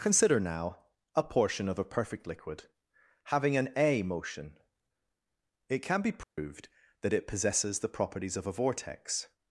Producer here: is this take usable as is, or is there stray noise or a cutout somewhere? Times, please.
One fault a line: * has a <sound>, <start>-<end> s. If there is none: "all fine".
* has a dropout, 6.2-6.4 s